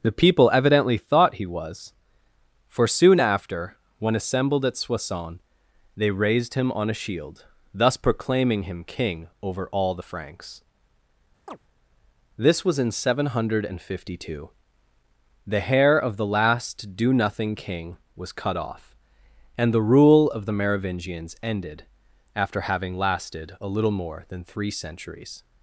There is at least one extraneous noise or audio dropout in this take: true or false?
true